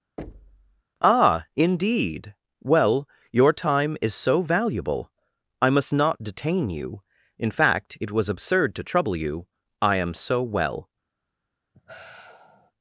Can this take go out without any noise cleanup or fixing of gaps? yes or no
no